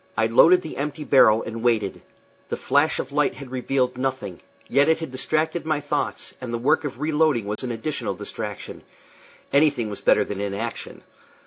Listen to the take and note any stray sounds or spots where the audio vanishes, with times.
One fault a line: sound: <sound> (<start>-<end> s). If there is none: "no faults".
sound: dropout (7.6-7.6 s)